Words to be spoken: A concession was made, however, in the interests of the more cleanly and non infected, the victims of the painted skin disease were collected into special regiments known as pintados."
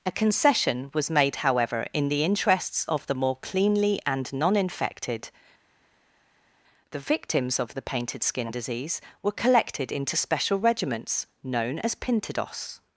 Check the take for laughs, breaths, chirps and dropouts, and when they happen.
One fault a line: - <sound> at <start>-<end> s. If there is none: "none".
none